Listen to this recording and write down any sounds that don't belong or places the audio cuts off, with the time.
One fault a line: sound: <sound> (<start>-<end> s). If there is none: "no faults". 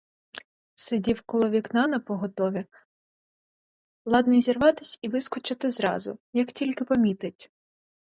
no faults